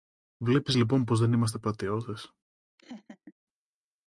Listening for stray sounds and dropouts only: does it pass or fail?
fail